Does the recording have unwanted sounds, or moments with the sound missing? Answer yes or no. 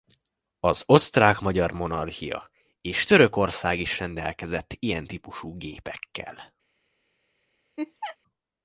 yes